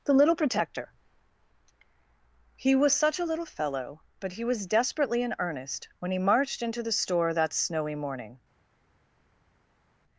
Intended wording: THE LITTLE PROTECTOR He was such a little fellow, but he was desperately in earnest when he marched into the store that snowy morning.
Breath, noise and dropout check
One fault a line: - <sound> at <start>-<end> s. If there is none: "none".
none